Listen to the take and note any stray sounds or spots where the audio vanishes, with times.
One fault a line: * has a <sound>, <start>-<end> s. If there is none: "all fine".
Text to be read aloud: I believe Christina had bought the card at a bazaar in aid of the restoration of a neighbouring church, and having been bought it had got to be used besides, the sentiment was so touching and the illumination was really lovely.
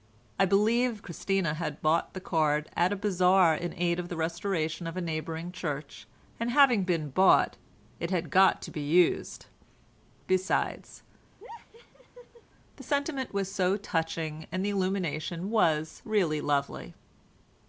* has a laugh, 11.4-12.4 s